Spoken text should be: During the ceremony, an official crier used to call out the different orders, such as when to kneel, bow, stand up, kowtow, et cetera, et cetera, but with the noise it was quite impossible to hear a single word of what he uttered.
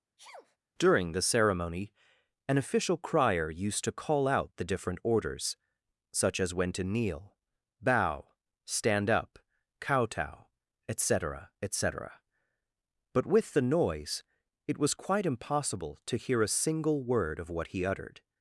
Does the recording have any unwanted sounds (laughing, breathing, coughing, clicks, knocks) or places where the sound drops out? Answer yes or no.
yes